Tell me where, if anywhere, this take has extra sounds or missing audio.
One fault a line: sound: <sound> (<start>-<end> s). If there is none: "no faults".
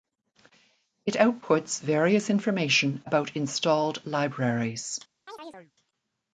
sound: chirp (5.3-5.7 s)